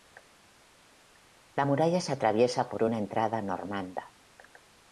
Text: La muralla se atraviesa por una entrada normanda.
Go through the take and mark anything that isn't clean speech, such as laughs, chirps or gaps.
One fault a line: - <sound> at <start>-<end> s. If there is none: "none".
none